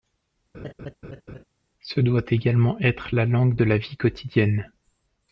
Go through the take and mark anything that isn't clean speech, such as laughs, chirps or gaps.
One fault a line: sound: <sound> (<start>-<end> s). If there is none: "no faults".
sound: laugh (0.5-1.4 s)